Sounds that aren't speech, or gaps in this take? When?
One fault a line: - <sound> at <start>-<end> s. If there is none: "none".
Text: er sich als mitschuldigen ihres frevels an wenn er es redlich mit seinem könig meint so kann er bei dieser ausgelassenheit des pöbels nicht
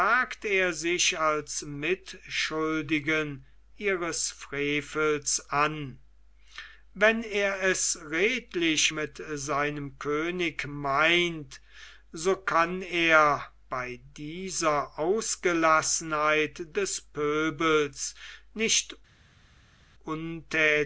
none